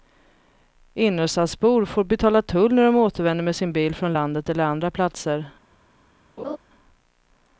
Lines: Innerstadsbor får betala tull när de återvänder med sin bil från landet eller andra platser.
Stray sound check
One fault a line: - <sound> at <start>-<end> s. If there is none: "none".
- laugh at 6.4-6.6 s